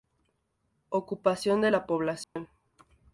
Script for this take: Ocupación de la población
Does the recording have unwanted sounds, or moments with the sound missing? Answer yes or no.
yes